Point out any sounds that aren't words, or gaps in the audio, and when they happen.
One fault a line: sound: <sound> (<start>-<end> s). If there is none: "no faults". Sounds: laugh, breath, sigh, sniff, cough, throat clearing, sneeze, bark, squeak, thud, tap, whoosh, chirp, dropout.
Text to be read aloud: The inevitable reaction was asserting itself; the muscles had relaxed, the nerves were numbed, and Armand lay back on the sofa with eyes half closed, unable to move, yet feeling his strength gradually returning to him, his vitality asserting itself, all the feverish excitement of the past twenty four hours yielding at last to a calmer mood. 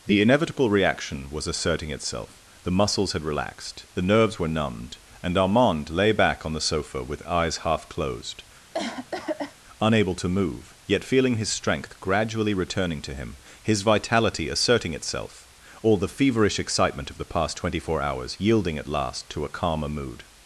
sound: cough (8.7-9.5 s)